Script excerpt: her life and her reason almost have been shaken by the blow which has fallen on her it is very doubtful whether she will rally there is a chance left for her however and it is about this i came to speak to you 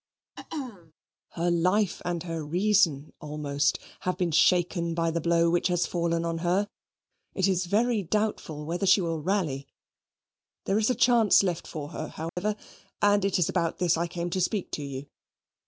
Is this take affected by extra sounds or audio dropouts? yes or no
yes